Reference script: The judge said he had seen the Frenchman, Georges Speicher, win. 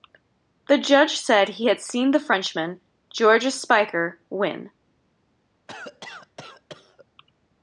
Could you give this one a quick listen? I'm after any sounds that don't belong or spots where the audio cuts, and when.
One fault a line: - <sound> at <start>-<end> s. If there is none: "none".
- cough at 5.7-7.1 s